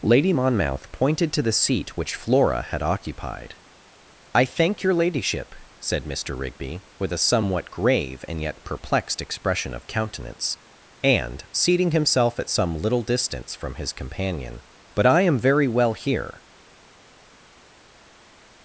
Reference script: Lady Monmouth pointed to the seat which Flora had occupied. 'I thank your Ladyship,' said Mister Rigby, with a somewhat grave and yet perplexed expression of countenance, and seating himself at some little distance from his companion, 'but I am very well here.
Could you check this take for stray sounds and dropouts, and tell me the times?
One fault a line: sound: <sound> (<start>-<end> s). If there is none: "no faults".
no faults